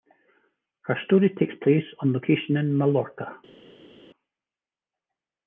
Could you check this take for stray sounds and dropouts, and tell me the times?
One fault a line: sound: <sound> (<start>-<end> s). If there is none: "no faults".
no faults